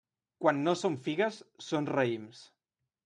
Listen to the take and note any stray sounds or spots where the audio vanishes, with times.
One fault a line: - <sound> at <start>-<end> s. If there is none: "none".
none